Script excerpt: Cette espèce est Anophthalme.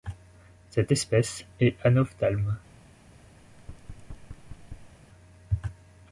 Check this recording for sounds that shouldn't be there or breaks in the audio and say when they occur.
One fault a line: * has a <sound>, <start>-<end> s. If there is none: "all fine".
* has a thud, 3.4-5.0 s